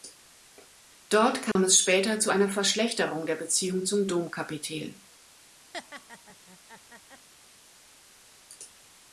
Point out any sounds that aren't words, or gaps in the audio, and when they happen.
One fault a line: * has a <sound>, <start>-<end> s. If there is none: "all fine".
* has a dropout, 1.5-1.6 s
* has a laugh, 5.7-7.3 s